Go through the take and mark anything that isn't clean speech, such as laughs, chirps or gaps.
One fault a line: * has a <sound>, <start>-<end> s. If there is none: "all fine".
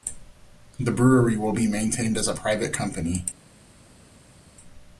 all fine